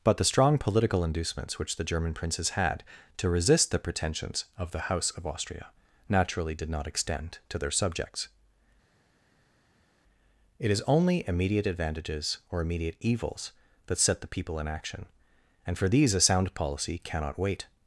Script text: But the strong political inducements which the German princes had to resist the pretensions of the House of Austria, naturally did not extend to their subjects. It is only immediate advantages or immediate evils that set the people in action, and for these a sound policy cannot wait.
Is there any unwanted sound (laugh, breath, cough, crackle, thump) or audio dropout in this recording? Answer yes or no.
no